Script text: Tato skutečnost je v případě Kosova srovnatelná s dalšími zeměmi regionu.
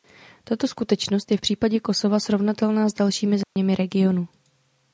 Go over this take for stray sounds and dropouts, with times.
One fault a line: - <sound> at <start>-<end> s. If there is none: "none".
- dropout at 3.4-3.6 s